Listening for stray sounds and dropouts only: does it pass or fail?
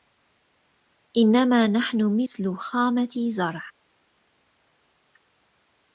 pass